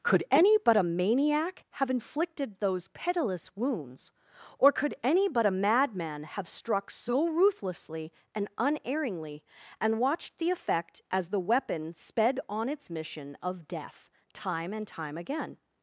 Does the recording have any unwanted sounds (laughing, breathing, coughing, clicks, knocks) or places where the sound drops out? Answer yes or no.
no